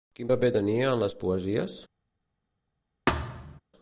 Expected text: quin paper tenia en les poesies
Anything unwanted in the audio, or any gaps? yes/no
yes